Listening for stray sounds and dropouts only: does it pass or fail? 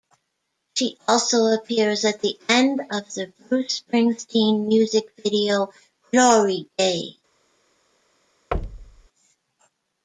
fail